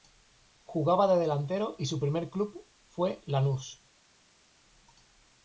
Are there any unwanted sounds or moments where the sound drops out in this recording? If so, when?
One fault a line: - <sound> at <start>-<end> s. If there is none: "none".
none